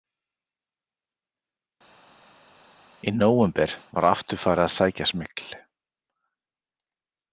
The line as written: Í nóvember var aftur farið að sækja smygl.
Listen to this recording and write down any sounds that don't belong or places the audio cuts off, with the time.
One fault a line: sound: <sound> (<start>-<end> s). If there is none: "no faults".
no faults